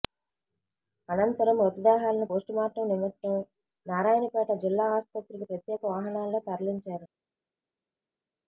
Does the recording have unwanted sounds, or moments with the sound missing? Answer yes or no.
no